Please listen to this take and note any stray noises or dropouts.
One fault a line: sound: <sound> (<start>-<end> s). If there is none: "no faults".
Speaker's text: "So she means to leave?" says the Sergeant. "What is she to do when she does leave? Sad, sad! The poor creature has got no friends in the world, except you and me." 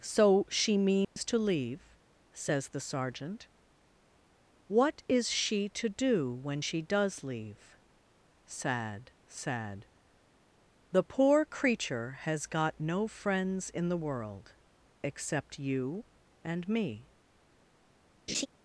sound: dropout (1.0-1.2 s)
sound: laugh (18.3-18.5 s)